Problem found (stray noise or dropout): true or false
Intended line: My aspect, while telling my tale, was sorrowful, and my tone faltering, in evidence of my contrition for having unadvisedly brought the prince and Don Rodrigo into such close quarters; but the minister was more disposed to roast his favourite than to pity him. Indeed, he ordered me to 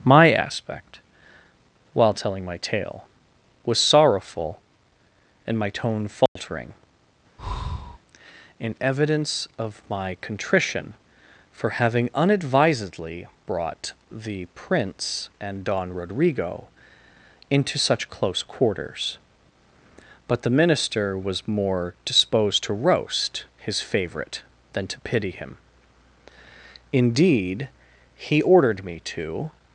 true